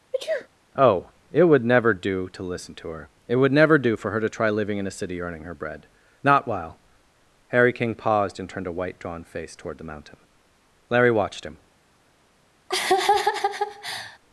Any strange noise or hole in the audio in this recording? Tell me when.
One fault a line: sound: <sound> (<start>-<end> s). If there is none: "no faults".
sound: sneeze (0.1-0.5 s)
sound: laugh (12.7-14.2 s)